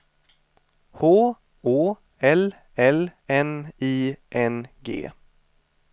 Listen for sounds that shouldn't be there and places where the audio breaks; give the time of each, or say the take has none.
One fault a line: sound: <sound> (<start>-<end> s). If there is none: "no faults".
no faults